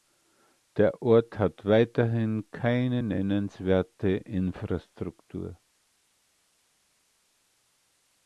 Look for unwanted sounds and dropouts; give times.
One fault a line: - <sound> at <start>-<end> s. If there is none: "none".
none